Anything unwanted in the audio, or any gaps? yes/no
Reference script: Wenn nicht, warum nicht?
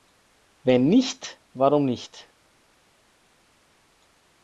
no